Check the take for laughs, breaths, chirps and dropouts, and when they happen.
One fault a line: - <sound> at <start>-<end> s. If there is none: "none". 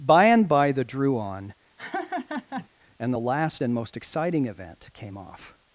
- laugh at 1.8-2.7 s